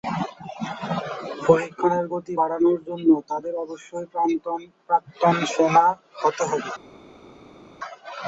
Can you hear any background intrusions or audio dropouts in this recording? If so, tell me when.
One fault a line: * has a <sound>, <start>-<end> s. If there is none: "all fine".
all fine